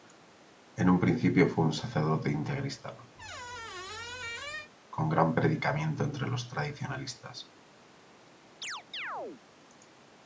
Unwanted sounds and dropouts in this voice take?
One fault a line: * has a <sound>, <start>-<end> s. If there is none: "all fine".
* has a squeak, 3.1-4.7 s
* has a chirp, 8.6-9.4 s